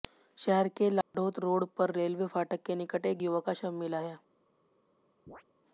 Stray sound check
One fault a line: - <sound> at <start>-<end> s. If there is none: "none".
- dropout at 1.0-1.1 s
- chirp at 5.3-5.4 s